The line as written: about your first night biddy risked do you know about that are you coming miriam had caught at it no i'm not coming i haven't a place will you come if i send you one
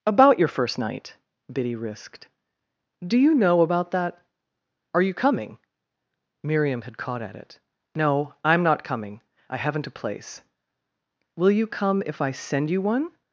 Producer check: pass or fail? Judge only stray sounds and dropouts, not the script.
pass